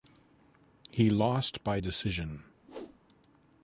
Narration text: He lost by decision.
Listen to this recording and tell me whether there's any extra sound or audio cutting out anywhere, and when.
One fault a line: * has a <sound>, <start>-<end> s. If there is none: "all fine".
* has a whoosh, 2.6-3.0 s